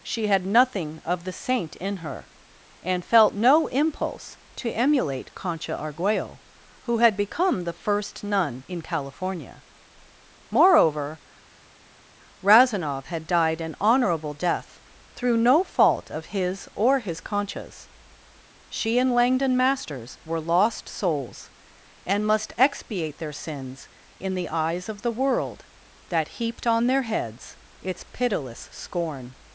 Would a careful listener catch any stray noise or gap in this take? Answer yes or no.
no